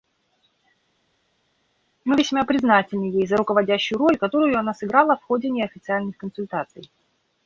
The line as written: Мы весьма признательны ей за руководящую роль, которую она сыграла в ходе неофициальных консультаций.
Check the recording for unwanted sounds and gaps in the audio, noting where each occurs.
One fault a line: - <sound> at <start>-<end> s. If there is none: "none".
none